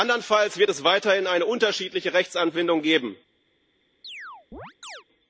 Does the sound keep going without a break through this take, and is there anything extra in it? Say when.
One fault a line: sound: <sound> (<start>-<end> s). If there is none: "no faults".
sound: chirp (4.0-5.0 s)